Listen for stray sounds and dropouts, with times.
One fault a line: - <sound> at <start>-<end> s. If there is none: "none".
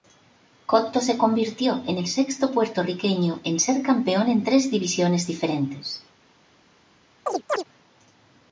- chirp at 7.3-7.6 s